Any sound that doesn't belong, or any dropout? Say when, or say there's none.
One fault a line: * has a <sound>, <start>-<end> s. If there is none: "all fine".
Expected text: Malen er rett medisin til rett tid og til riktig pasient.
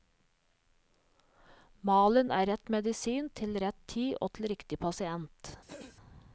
* has a throat clearing, 5.7-6.0 s